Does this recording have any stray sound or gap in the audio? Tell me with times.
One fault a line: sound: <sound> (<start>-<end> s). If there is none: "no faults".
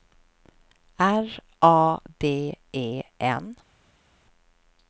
no faults